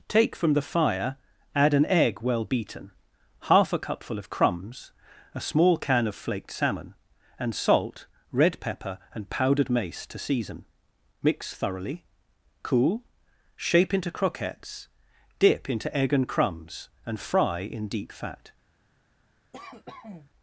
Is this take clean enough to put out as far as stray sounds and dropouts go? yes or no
no